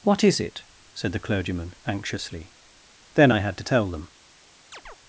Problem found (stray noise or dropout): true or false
true